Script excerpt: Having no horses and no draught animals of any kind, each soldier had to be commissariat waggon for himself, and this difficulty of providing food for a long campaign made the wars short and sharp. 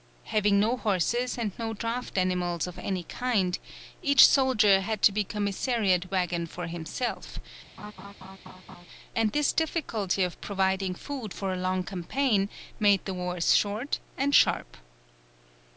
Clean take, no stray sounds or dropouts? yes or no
no